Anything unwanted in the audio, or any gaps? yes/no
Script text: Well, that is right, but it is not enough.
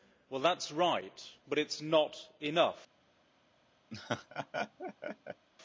yes